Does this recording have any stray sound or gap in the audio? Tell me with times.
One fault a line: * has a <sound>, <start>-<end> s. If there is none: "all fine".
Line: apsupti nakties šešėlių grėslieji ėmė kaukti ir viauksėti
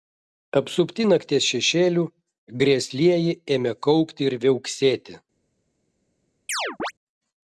* has a chirp, 6.5-6.9 s